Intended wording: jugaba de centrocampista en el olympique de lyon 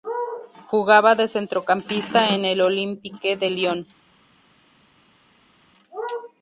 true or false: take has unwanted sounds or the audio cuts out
false